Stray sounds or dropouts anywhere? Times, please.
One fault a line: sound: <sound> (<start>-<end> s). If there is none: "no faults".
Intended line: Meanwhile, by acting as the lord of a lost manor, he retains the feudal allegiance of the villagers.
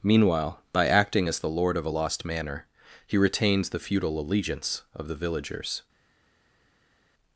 no faults